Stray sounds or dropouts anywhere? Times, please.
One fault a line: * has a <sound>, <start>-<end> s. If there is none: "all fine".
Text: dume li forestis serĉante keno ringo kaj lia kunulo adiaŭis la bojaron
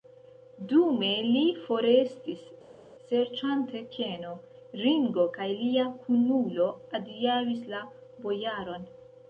all fine